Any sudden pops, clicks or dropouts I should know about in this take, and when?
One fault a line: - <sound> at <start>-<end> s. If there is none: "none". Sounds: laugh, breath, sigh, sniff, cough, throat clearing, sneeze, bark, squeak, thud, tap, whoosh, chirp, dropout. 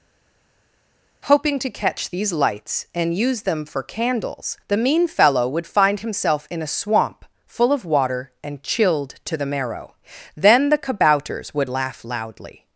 none